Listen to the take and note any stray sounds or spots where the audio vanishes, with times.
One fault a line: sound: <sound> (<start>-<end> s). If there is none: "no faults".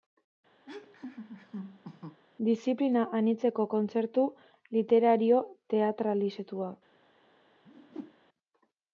sound: laugh (0.7-2.2 s)
sound: whoosh (7.6-8.2 s)